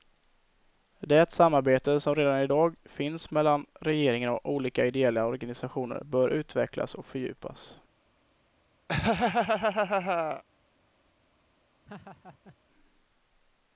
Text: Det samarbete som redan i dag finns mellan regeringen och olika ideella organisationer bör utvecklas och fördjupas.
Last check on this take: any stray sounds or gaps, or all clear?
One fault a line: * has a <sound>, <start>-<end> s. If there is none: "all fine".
* has a laugh, 8.9-10.4 s
* has a laugh, 11.9-12.6 s